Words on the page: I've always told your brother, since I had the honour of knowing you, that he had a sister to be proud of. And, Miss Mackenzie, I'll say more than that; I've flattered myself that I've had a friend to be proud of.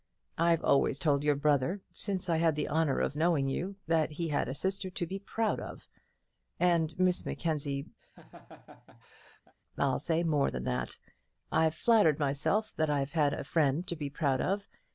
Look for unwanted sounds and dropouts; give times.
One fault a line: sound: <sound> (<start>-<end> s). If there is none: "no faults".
sound: laugh (8.0-9.5 s)